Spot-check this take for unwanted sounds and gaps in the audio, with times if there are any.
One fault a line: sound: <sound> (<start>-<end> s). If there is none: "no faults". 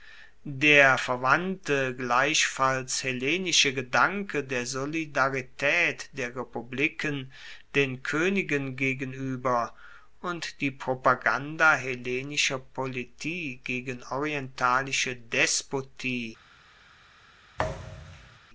sound: thud (17.6-18.4 s)